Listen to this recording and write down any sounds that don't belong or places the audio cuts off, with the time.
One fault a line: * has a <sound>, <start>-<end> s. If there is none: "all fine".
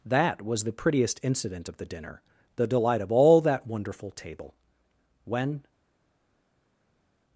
all fine